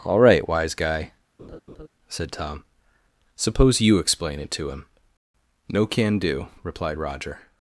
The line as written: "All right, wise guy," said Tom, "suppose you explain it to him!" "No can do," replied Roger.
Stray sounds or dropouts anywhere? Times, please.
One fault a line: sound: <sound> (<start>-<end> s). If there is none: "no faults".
sound: laugh (1.4-1.9 s)